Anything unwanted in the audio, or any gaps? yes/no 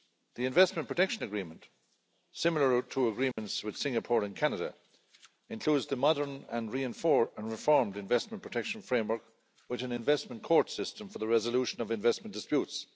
yes